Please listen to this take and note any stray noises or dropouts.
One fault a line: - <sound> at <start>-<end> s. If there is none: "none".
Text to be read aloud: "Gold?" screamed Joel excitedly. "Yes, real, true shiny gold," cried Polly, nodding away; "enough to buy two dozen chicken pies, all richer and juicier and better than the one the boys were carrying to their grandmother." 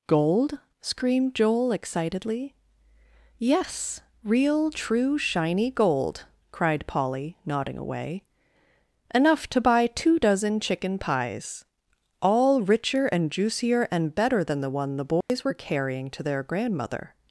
- dropout at 15.2-15.3 s